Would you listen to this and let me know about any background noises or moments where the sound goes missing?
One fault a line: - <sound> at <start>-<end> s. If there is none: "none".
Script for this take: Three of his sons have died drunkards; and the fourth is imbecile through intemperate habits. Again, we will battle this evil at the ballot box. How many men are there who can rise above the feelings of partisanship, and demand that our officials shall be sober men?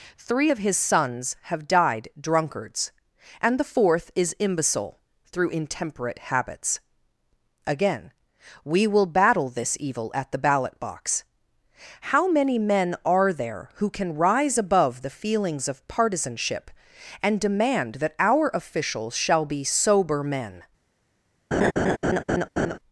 - laugh at 21.5-22.8 s